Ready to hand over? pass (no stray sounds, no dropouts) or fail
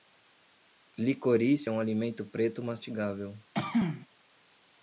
fail